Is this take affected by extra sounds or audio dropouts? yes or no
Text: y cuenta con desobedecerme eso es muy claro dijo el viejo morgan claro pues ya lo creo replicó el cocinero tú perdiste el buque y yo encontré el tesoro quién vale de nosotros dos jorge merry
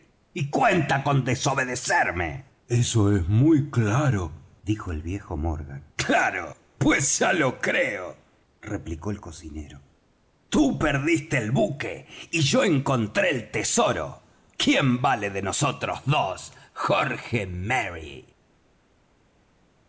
no